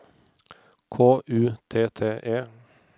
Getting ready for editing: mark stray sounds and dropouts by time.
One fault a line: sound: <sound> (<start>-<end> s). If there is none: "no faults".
no faults